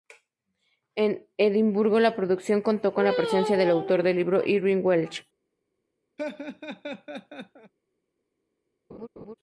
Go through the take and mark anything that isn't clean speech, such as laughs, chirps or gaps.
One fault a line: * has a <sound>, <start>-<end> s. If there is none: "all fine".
* has a laugh, 6.2-7.7 s
* has a laugh, 8.9-9.3 s